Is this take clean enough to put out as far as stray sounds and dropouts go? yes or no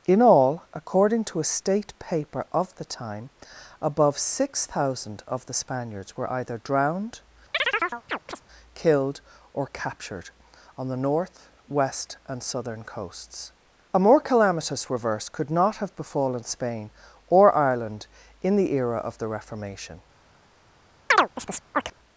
no